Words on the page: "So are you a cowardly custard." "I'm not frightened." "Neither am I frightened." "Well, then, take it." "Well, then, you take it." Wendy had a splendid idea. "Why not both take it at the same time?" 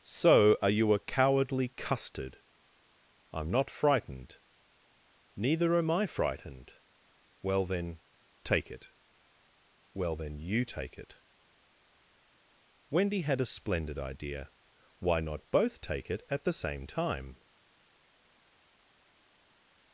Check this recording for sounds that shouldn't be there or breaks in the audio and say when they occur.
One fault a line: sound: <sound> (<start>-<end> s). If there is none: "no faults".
no faults